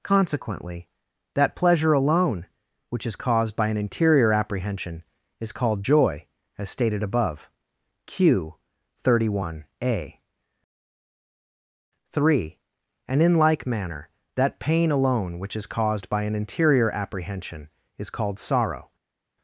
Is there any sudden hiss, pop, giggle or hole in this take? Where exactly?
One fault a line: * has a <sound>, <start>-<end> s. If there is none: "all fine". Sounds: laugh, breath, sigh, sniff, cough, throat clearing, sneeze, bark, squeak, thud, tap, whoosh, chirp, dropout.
all fine